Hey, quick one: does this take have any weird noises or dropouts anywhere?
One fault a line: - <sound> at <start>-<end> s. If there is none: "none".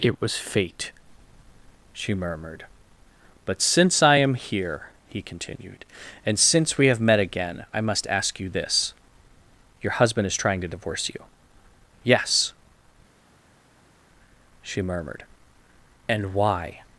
none